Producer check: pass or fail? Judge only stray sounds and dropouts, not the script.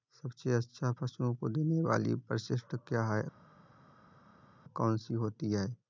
pass